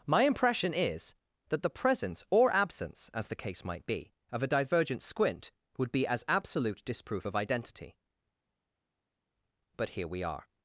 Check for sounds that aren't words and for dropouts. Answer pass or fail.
pass